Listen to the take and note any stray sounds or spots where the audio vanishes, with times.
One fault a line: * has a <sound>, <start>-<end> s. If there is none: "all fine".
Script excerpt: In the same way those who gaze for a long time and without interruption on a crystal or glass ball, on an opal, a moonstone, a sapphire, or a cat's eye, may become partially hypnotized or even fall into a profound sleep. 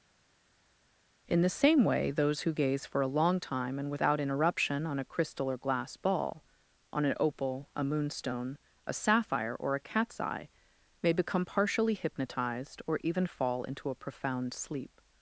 all fine